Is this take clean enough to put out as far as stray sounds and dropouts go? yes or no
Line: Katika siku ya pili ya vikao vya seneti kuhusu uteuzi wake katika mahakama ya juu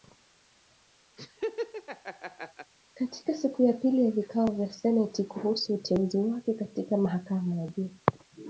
no